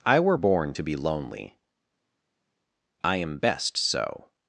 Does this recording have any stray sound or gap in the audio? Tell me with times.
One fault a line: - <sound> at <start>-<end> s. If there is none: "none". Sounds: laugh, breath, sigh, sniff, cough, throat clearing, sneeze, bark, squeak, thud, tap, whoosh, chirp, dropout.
none